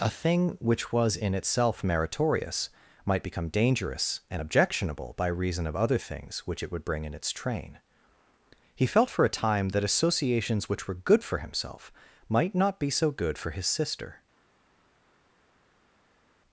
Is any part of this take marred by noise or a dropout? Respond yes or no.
no